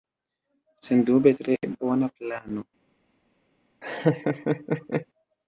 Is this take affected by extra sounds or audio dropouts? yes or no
yes